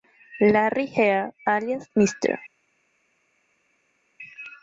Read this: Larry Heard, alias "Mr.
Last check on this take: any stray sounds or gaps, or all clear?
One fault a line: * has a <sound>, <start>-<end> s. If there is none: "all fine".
all fine